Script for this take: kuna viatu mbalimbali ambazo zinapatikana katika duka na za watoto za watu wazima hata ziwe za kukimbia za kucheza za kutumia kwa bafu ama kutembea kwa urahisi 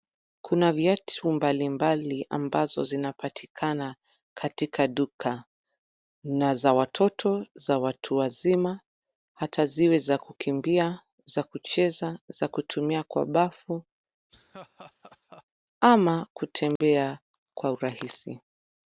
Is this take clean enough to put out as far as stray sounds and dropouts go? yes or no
no